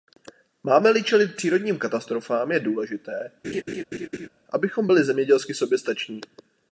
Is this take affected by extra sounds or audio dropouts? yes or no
yes